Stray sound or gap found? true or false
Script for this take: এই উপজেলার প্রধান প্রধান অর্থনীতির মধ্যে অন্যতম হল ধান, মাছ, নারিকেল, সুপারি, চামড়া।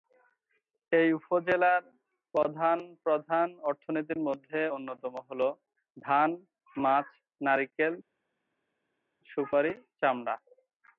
false